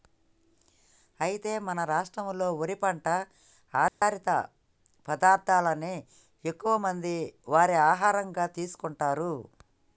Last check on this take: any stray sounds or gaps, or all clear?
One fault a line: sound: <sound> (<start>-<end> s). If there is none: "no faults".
sound: dropout (3.9-4.0 s)